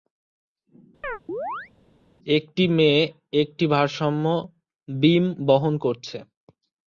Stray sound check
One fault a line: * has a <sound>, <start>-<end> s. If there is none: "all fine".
* has a chirp, 1.0-1.7 s